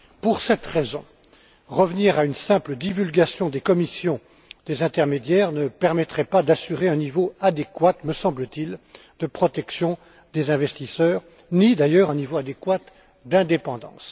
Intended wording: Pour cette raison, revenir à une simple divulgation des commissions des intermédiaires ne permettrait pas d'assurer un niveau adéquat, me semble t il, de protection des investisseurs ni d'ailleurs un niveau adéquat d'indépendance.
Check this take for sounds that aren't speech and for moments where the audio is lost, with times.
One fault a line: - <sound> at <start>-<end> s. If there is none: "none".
none